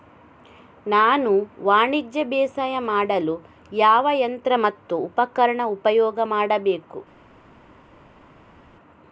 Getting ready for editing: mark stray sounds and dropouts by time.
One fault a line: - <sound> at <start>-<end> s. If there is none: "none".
none